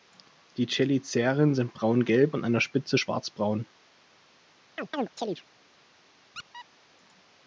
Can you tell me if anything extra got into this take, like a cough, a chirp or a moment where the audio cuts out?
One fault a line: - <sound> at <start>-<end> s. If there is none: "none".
- chirp at 4.8-5.4 s
- squeak at 6.3-6.7 s